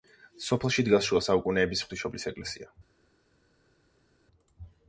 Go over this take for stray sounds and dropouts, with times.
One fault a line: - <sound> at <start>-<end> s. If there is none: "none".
none